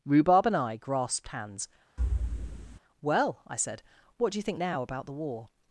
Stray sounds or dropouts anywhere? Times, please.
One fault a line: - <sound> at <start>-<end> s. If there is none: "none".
- thud at 2.0-2.8 s